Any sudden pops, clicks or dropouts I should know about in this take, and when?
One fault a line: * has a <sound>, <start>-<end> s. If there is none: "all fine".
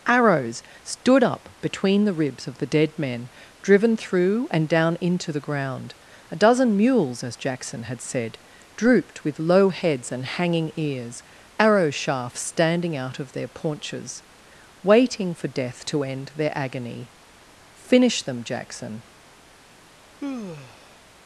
* has a sigh, 20.2-21.0 s